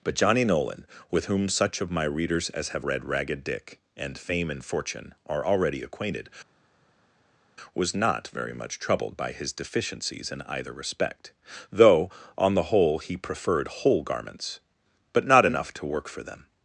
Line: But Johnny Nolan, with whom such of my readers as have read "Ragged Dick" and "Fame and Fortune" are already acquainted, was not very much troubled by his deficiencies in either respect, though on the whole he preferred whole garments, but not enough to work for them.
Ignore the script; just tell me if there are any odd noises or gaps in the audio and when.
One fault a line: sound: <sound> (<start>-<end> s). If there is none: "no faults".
no faults